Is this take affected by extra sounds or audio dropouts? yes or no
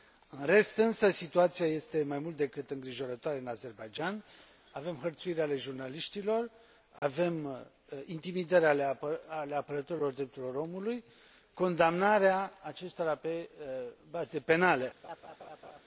yes